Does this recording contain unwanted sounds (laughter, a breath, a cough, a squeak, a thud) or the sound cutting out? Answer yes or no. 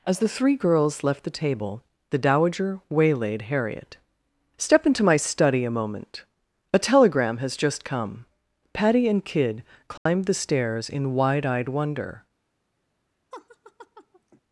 yes